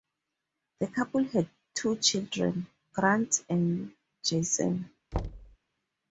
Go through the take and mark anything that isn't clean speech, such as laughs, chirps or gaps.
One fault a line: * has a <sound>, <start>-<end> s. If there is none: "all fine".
* has a thud, 5.1-5.6 s